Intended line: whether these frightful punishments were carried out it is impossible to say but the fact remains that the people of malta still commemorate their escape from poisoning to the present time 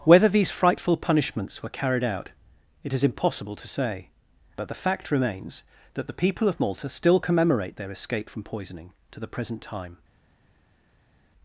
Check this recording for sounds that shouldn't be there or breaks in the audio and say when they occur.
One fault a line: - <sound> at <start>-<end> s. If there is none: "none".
none